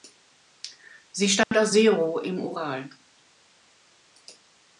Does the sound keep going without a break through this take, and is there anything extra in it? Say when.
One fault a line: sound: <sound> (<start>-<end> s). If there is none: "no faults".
sound: dropout (1.4-1.5 s)